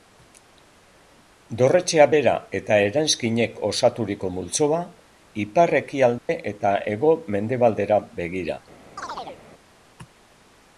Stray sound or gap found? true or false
true